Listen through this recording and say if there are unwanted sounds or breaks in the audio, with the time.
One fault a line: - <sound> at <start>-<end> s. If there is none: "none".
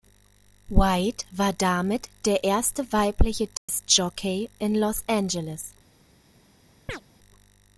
- dropout at 3.6-3.7 s
- chirp at 6.9-7.0 s